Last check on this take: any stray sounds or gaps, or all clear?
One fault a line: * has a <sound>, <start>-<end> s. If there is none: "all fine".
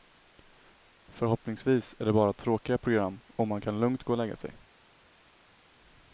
all fine